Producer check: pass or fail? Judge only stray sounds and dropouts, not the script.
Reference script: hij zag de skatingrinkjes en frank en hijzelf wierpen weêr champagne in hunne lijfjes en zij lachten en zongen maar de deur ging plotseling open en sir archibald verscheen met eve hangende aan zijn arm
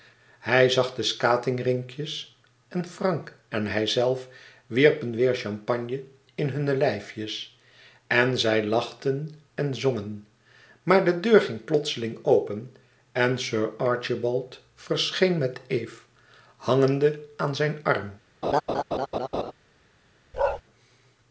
fail